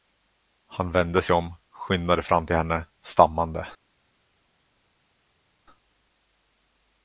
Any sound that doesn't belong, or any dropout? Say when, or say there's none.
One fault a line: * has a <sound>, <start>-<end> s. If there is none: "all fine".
all fine